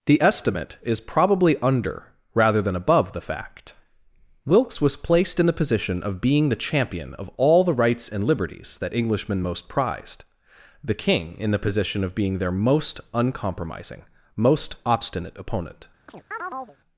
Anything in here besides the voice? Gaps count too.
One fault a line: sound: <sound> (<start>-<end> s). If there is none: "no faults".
sound: chirp (16.1-16.8 s)